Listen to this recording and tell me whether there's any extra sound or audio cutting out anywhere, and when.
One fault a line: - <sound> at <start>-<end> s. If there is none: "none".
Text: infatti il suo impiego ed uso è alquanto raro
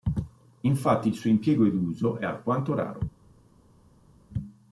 none